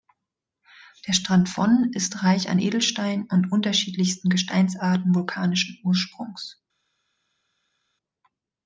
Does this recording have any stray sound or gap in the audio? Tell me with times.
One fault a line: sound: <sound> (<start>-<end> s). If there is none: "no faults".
no faults